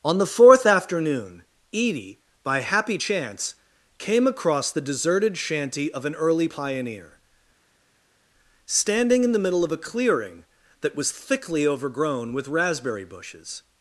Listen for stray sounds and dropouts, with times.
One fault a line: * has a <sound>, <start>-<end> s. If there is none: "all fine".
all fine